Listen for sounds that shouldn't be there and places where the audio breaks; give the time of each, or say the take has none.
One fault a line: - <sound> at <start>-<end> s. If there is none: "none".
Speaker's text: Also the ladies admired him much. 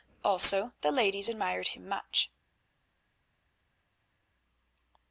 none